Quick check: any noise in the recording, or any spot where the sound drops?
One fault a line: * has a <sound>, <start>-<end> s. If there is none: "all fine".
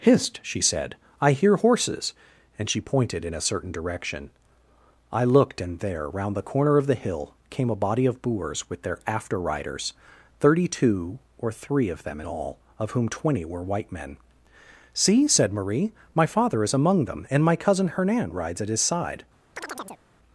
* has a chirp, 19.6-20.0 s